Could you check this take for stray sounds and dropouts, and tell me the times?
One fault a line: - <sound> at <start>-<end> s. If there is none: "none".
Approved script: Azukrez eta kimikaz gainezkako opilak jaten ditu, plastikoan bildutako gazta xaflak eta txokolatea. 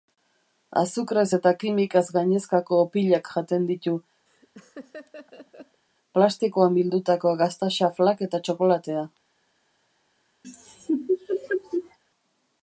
- laugh at 4.3-5.8 s
- laugh at 10.4-12.0 s